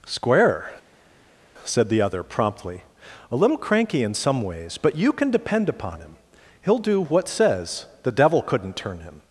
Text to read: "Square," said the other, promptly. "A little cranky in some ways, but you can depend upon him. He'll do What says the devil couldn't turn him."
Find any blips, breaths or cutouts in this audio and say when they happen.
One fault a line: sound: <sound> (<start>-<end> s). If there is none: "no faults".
no faults